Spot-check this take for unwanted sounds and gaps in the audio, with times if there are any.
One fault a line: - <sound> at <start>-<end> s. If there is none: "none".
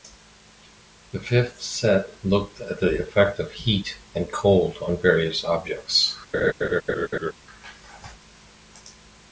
- laugh at 6.3-7.3 s